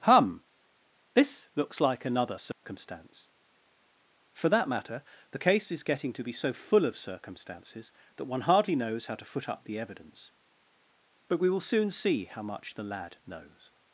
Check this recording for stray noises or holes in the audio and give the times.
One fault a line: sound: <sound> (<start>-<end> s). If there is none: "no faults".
sound: dropout (2.5-2.6 s)